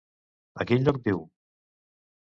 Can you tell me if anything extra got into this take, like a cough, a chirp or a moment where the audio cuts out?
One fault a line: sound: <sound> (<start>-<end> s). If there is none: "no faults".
no faults